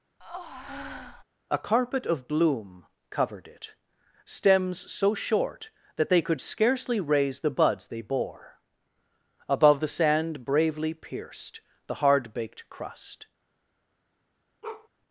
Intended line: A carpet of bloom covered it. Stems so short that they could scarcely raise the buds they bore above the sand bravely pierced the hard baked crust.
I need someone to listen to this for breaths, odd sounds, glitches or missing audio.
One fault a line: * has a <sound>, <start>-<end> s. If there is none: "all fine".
* has a breath, 0.2-1.2 s
* has a bark, 14.6-14.9 s